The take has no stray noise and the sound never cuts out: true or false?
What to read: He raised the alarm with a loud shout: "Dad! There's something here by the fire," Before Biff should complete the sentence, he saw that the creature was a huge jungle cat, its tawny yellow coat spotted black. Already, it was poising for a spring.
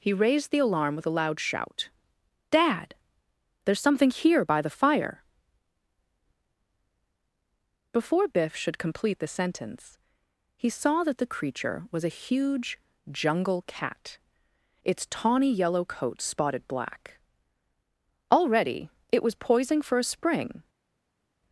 true